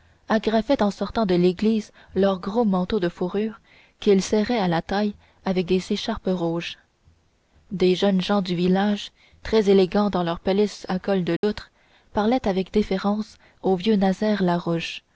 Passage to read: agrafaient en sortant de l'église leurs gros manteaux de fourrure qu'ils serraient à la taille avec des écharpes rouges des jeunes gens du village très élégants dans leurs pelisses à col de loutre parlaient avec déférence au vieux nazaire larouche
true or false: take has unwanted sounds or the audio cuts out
true